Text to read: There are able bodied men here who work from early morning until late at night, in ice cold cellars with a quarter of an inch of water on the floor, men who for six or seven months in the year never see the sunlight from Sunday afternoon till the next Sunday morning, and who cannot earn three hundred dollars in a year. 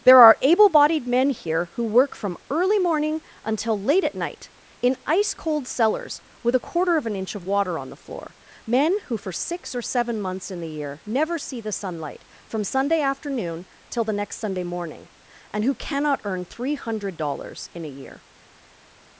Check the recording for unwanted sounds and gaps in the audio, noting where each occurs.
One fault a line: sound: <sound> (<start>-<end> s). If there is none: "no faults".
no faults